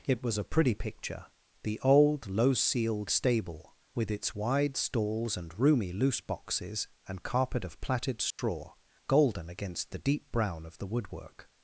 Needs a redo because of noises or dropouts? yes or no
yes